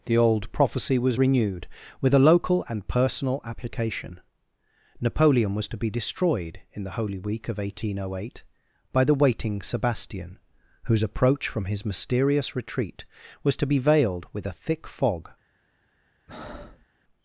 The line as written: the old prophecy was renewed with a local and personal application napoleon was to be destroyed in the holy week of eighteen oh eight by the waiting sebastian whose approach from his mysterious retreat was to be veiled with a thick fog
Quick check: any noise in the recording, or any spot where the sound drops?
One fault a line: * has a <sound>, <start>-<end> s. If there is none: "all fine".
* has a breath, 16.3-16.9 s